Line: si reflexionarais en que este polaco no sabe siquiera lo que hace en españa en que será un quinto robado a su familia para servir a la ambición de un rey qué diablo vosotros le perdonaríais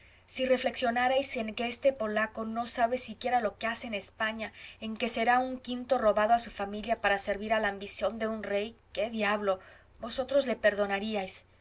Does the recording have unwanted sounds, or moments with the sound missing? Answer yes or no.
no